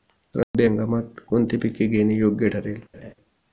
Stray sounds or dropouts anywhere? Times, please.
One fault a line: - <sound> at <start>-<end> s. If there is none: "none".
- dropout at 0.4-0.5 s
- laugh at 2.9-3.1 s